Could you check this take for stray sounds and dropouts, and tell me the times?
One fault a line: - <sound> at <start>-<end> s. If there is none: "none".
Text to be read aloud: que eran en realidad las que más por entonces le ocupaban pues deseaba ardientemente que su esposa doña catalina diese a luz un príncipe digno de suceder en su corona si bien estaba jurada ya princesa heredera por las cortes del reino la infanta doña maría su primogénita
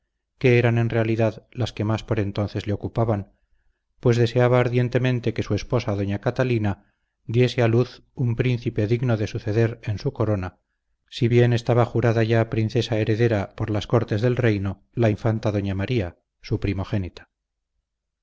none